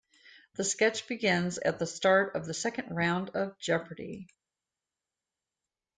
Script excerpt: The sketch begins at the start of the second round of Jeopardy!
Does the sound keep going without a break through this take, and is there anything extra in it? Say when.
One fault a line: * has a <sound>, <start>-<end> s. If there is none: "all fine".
all fine